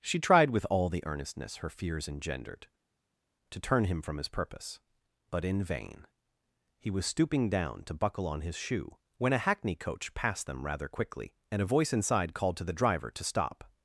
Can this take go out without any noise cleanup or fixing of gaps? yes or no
yes